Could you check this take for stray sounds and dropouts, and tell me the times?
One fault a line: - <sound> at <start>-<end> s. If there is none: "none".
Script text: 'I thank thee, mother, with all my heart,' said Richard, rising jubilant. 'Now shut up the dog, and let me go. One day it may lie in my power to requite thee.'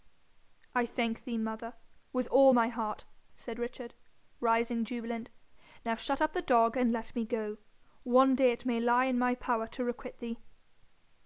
none